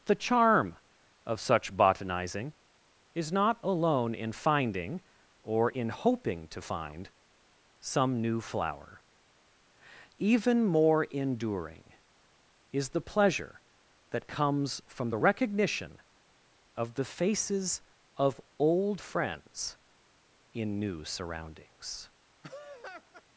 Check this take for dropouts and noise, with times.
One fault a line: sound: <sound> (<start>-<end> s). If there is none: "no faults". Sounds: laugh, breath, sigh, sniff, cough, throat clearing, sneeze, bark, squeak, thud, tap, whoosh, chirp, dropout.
sound: laugh (22.4-23.2 s)